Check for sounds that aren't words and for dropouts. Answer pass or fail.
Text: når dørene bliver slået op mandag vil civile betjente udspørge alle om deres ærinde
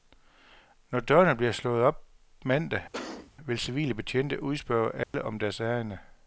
fail